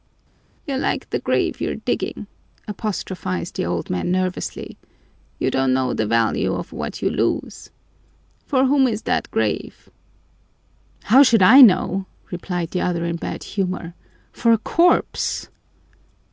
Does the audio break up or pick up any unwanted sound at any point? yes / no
no